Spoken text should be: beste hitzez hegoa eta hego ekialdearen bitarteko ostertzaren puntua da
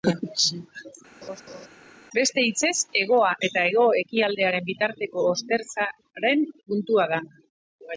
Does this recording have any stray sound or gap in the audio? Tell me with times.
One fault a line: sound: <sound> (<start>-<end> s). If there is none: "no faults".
sound: laugh (1.2-1.7 s)